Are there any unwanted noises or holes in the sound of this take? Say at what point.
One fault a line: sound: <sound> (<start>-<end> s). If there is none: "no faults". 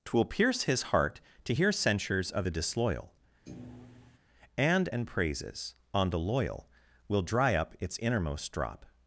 sound: thud (3.5-4.2 s)